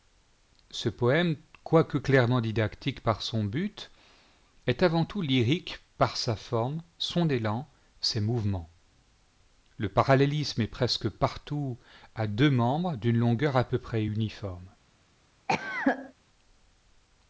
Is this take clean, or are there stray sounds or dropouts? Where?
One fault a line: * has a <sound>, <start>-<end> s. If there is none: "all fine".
* has a cough, 15.5-16.1 s